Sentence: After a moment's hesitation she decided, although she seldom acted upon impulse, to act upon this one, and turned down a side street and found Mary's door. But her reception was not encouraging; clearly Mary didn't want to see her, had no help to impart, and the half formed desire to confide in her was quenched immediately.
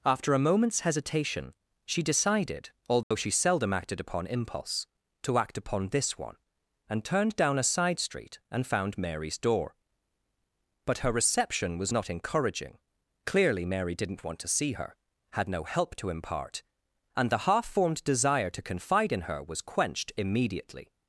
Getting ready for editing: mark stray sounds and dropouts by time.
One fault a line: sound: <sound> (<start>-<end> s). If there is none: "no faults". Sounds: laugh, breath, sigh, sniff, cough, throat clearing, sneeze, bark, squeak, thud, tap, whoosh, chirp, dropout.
sound: dropout (3.0-3.1 s)